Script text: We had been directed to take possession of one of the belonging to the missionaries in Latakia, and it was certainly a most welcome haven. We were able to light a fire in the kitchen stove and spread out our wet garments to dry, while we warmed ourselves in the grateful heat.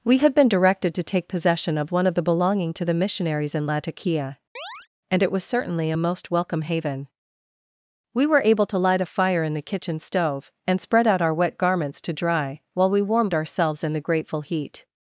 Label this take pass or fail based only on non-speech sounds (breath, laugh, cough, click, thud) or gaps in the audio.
fail